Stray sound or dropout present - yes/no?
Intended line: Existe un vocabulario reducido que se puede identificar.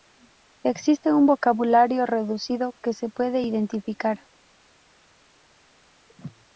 no